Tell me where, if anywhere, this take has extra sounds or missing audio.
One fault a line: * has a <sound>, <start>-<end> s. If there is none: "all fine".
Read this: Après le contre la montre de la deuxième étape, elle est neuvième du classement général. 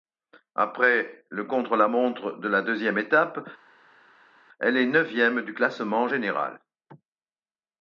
all fine